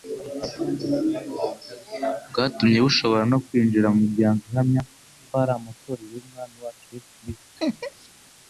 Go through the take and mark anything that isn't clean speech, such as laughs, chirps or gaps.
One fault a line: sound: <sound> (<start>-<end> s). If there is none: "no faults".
sound: laugh (7.6-8.1 s)